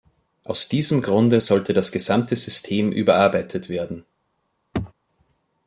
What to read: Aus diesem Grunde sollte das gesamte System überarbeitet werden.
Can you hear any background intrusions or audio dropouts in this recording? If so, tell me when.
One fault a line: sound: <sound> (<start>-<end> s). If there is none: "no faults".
sound: throat clearing (4.7-4.9 s)